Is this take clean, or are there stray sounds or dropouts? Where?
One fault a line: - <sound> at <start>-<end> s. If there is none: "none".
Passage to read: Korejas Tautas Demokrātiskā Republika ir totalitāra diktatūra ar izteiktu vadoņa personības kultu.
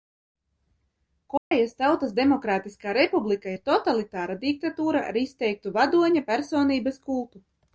- dropout at 1.4-1.5 s